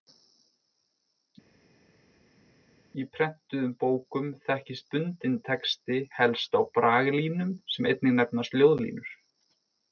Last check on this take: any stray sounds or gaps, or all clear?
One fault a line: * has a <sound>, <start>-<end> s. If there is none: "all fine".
all fine